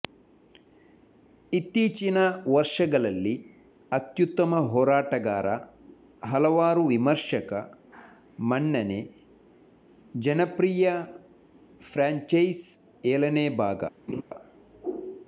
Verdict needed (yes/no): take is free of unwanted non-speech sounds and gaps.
no